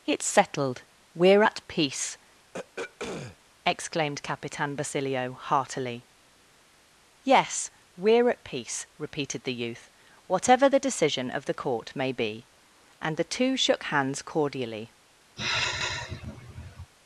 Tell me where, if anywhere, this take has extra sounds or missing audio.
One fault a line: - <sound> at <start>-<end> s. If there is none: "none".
- throat clearing at 2.5-3.4 s
- sigh at 15.4-16.9 s